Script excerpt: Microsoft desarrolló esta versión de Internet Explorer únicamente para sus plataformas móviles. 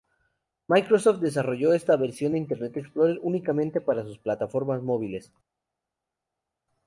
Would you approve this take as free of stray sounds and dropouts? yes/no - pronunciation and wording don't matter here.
yes